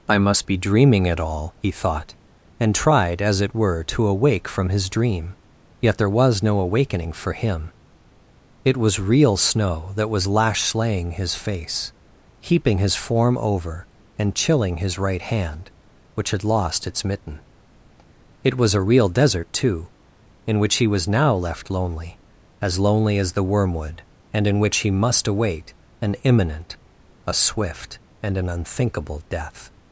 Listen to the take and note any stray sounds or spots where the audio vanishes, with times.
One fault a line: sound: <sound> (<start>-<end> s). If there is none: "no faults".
no faults